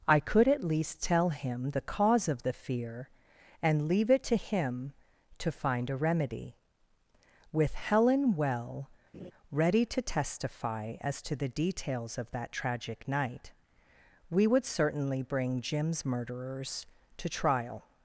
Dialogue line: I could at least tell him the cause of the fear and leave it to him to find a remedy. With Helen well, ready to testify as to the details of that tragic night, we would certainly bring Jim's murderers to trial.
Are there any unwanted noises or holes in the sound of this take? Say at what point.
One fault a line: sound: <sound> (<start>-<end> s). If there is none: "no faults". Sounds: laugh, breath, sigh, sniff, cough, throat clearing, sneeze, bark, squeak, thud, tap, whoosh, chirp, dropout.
sound: laugh (9.1-9.3 s)